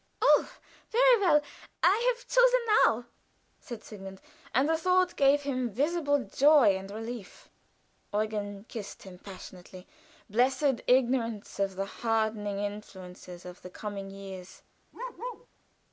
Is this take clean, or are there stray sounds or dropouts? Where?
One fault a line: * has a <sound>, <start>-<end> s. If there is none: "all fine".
* has a bark, 14.9-15.5 s